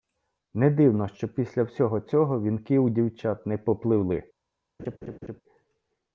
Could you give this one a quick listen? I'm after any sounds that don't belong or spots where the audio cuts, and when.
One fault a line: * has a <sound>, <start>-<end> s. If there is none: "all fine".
* has a laugh, 4.8-5.4 s